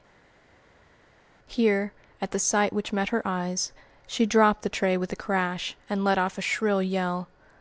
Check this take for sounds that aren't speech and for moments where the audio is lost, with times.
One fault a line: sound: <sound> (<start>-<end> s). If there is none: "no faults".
no faults